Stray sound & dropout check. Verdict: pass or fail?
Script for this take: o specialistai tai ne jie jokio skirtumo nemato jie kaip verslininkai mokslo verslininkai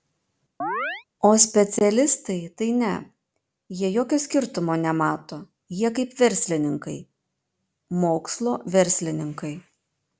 fail